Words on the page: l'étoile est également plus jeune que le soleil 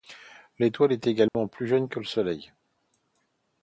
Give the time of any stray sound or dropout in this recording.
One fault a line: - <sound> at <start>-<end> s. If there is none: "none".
- dropout at 1.3-1.3 s